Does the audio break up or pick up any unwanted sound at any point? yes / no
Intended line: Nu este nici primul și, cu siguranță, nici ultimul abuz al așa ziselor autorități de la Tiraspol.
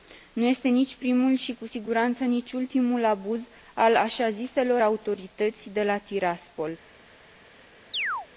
yes